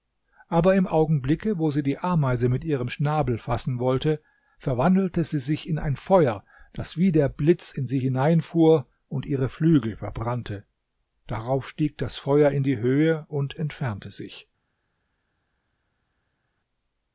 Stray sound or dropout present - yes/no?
no